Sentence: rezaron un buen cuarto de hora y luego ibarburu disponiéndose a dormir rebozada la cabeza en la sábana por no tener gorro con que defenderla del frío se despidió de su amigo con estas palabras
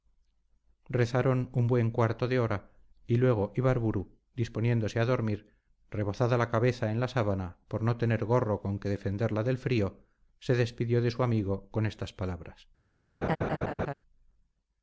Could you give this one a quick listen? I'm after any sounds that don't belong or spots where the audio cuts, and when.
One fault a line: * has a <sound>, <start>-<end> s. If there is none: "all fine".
* has a laugh, 13.2-13.9 s